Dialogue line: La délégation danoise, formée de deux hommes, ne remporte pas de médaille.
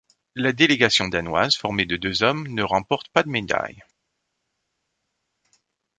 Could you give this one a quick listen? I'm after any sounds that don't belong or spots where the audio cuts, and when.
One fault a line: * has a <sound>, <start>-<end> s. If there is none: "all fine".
all fine